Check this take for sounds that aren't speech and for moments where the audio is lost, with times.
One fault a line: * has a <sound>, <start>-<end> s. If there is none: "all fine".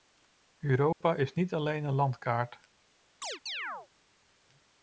* has a dropout, 0.9-1.0 s
* has a chirp, 3.2-3.9 s